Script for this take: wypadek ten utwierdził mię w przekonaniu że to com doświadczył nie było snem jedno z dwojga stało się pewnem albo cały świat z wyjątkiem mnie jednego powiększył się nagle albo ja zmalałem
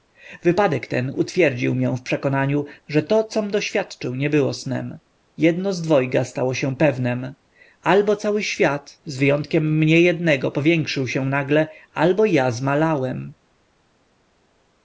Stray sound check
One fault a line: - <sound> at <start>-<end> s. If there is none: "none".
none